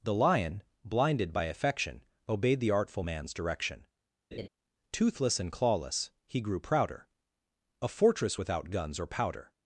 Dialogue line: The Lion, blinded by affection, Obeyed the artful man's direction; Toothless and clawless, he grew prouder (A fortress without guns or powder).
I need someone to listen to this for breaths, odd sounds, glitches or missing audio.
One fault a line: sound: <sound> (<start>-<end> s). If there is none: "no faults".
sound: laugh (4.3-4.5 s)